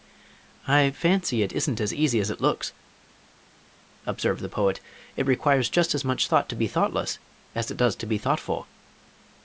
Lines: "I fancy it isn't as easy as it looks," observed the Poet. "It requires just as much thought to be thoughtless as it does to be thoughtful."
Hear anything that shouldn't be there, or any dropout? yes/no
no